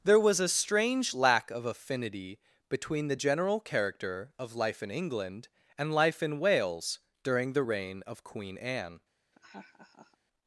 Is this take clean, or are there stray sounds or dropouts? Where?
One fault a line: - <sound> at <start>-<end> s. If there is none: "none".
- laugh at 9.3-10.2 s